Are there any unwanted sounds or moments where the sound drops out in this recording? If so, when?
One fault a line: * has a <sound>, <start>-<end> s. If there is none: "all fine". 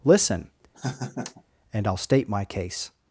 * has a laugh, 0.7-1.4 s